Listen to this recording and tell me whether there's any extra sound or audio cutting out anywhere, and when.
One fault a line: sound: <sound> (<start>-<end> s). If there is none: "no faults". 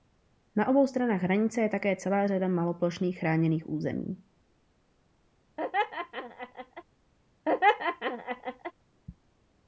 sound: laugh (5.6-6.8 s)
sound: laugh (7.5-8.7 s)